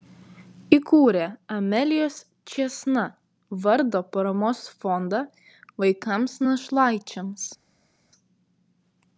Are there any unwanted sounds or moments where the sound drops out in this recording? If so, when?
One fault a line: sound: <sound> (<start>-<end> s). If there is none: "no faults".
no faults